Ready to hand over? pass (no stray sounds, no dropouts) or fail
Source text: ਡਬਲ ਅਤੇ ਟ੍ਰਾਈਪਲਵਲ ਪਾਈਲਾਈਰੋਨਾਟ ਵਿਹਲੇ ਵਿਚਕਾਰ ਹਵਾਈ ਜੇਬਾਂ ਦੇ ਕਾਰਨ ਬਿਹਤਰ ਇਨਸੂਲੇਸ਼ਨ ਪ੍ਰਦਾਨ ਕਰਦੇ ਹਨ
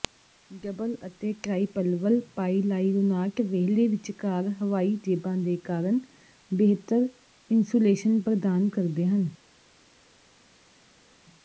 pass